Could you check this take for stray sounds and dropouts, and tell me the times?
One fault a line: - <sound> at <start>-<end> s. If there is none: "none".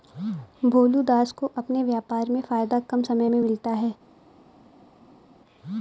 none